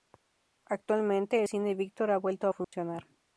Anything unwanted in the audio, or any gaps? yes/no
yes